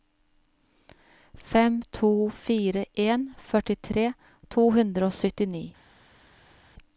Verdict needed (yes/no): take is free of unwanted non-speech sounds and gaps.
yes